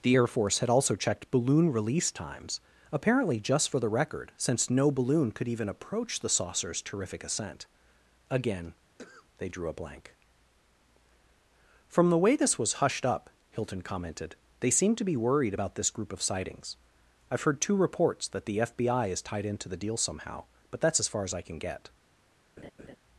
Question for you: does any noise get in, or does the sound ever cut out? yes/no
yes